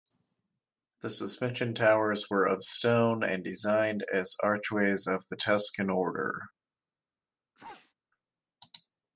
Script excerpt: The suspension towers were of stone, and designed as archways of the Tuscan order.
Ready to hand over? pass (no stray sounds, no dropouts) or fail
fail